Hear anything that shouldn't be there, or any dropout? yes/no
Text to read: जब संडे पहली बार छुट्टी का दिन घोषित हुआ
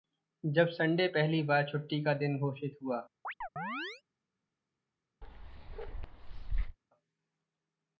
yes